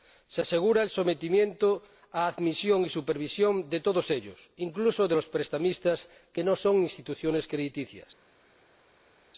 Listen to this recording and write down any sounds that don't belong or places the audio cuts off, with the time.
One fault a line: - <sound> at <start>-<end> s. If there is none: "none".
none